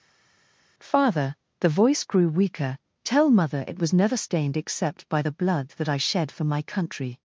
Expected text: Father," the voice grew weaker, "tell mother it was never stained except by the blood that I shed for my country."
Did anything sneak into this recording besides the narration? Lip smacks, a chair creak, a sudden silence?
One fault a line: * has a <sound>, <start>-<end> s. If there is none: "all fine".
all fine